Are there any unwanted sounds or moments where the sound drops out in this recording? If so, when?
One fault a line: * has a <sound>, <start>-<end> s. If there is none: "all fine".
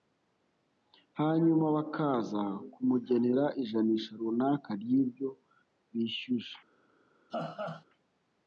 * has a laugh, 7.3-7.8 s